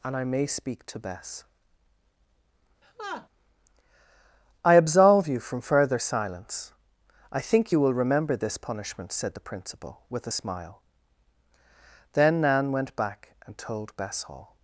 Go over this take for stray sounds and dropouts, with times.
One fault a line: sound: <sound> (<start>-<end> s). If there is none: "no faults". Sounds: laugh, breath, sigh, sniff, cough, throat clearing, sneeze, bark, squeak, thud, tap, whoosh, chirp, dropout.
sound: laugh (2.8-3.3 s)